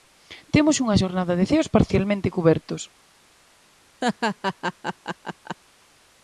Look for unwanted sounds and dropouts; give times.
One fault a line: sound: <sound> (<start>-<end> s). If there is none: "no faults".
sound: laugh (4.0-5.6 s)